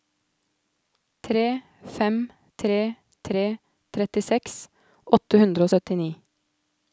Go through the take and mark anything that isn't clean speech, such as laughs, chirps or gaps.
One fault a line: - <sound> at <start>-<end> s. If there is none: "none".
none